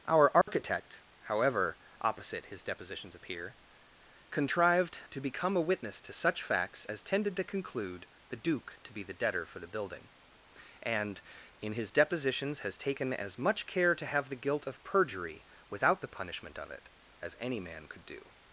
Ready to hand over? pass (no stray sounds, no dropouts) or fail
fail